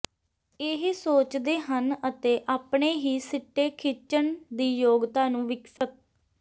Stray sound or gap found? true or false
true